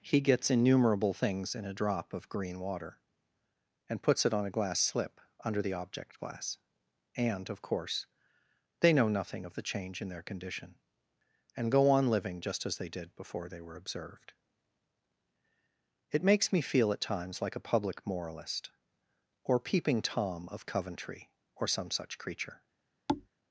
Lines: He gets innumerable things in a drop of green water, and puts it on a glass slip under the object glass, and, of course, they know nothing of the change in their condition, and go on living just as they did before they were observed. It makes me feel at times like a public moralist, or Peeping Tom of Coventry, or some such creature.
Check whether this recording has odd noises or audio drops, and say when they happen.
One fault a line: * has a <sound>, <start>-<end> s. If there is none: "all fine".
* has a thud, 23.1-23.3 s